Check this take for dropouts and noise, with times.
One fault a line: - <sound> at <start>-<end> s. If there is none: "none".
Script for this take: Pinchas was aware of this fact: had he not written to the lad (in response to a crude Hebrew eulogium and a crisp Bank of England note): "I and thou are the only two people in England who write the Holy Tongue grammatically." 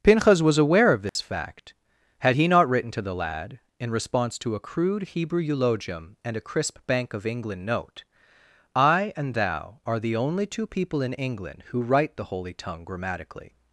- dropout at 1.1-1.2 s